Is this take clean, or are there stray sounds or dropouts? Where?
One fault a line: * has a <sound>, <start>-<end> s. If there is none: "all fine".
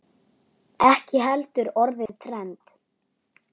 * has a dropout, 2.1-2.1 s